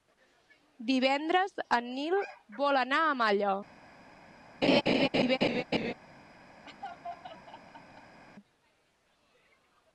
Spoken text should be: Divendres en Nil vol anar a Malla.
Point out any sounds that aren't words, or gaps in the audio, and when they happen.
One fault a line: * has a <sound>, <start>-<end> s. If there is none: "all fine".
* has a laugh, 4.6-5.9 s
* has a laugh, 6.6-8.2 s